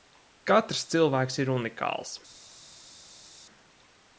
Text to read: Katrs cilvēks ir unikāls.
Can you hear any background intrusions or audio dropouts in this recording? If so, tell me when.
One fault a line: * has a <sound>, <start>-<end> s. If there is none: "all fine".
all fine